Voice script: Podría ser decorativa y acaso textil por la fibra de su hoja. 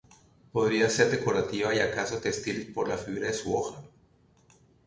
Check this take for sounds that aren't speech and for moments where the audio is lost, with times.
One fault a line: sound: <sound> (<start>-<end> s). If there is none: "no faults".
no faults